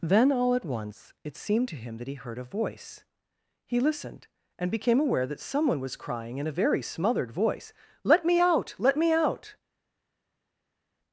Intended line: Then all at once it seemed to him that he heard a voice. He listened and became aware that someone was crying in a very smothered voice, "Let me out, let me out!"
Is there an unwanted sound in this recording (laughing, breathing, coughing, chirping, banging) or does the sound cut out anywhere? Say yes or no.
no